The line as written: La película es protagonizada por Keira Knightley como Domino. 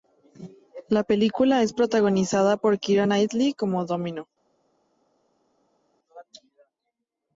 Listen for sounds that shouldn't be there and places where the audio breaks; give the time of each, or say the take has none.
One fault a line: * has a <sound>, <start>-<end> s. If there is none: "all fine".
all fine